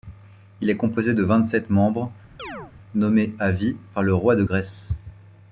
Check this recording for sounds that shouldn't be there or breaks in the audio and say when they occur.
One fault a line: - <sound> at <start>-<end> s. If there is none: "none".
- chirp at 2.4-2.7 s